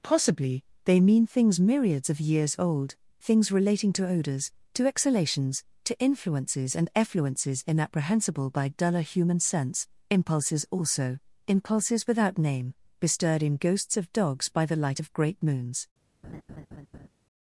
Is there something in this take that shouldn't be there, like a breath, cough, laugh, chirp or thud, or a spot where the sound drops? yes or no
yes